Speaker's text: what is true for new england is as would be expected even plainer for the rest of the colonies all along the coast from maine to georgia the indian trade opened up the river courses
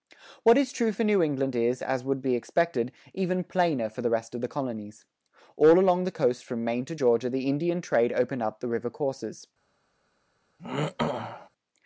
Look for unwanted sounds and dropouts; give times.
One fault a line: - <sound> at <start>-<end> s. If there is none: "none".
- throat clearing at 10.6-11.5 s